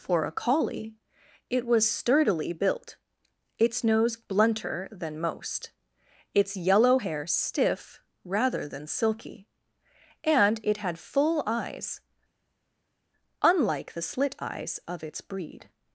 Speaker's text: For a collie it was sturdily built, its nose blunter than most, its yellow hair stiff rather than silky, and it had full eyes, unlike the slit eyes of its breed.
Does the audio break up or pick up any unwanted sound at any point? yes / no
no